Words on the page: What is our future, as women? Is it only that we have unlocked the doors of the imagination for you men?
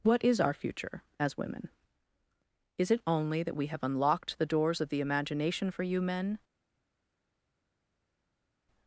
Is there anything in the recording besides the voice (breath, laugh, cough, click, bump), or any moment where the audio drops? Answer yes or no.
no